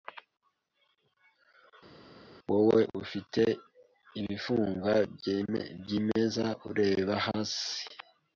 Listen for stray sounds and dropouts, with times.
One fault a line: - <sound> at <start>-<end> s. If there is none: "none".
none